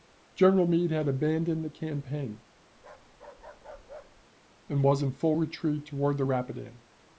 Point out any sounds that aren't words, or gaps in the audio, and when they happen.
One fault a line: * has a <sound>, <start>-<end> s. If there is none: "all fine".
* has a bark, 2.8-4.2 s